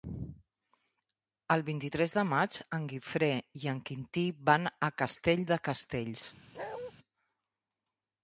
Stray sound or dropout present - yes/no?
yes